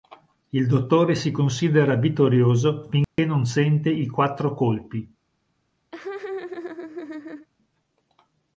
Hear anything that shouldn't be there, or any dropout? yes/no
yes